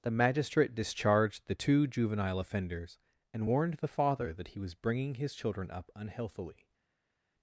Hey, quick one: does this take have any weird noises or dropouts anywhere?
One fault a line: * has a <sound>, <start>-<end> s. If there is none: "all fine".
all fine